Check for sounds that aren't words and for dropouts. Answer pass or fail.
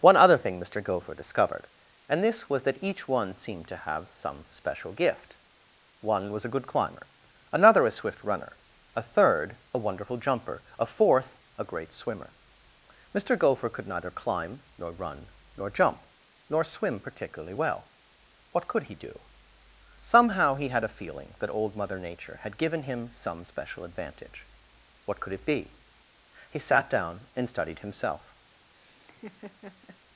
fail